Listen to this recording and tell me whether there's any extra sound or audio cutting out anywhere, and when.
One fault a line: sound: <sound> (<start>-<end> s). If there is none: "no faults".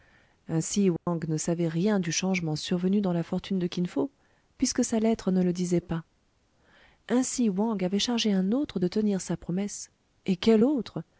sound: dropout (1.0-1.1 s)